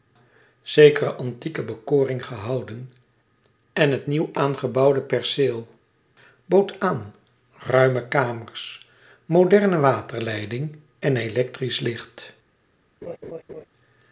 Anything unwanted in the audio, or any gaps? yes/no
yes